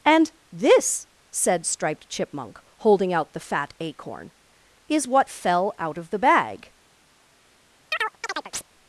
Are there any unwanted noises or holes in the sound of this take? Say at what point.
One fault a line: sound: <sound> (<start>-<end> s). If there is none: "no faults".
sound: chirp (7.9-8.6 s)